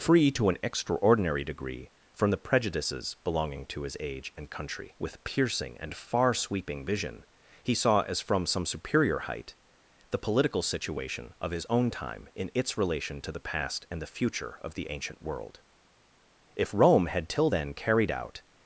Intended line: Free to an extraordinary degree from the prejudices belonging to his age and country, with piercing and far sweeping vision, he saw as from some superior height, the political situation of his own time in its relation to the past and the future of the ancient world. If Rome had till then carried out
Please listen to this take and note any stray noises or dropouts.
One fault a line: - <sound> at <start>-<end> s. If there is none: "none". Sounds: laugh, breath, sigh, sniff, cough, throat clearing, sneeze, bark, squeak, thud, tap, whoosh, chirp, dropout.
none